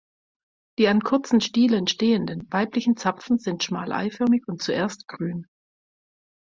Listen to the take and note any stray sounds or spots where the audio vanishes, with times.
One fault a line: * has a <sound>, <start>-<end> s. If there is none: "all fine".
all fine